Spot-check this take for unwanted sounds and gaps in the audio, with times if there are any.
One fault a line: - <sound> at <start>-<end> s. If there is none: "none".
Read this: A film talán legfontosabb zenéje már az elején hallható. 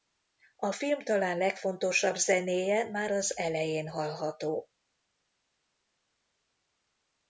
none